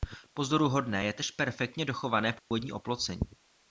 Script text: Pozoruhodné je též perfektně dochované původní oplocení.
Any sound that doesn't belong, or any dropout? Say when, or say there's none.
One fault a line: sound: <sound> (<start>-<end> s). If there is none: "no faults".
sound: dropout (2.4-2.5 s)